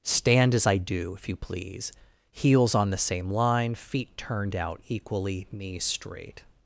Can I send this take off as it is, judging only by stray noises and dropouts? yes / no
yes